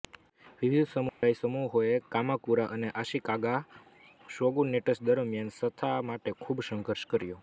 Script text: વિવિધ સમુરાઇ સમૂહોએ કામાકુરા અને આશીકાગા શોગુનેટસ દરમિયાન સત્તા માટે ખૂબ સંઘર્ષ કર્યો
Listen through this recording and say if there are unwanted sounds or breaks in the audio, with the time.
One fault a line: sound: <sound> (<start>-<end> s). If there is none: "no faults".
sound: dropout (1.1-1.2 s)